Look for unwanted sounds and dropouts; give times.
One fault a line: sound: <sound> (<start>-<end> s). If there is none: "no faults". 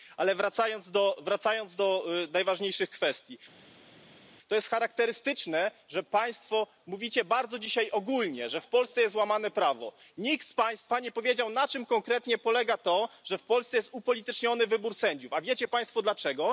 no faults